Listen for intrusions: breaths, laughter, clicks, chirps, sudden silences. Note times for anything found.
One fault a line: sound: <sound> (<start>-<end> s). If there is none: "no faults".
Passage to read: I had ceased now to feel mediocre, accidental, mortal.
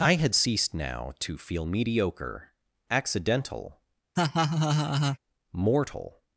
sound: laugh (4.2-5.2 s)